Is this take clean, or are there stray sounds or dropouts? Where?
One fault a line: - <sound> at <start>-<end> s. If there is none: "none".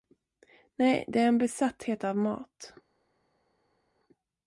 none